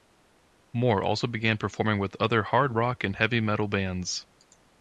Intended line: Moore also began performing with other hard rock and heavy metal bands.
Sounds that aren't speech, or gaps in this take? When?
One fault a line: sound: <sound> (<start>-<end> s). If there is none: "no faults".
no faults